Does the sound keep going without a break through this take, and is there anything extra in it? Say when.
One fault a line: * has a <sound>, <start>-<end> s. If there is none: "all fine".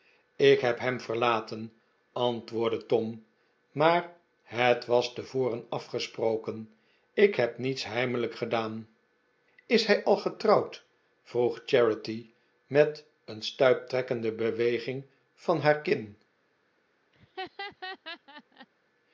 * has a laugh, 17.1-18.7 s